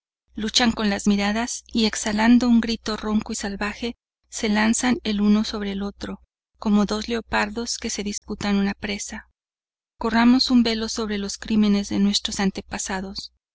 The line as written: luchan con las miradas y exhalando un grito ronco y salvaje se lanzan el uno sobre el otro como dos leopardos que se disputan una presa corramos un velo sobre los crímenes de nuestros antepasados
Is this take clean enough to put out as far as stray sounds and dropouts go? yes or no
no